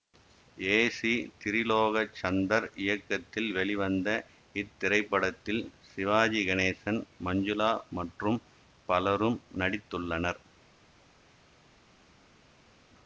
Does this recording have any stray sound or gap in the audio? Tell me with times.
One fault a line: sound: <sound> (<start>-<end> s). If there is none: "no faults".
no faults